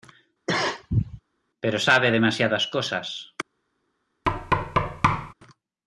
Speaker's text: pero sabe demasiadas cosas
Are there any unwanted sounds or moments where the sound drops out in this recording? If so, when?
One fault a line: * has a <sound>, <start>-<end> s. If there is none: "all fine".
* has a cough, 0.5-1.2 s
* has a thud, 4.2-5.3 s